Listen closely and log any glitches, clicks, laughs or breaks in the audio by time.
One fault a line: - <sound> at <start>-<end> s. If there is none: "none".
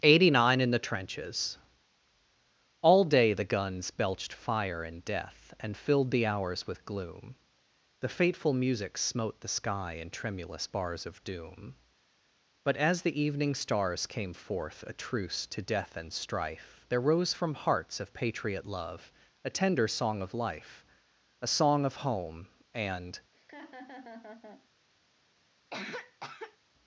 - laugh at 23.3-24.7 s
- cough at 25.7-26.6 s